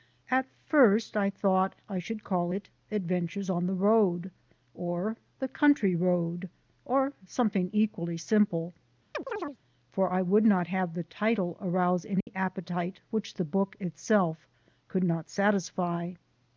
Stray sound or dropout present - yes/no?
yes